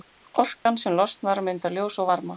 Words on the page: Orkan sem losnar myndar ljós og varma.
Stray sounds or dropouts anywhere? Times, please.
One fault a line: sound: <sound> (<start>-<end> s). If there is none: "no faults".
sound: dropout (0.6-0.7 s)